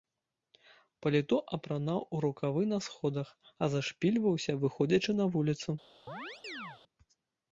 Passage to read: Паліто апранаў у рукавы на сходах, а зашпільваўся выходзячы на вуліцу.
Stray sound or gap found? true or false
true